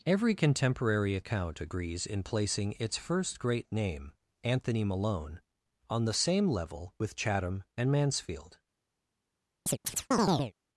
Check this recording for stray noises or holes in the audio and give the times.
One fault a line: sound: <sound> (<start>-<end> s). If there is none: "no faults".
sound: chirp (9.7-10.5 s)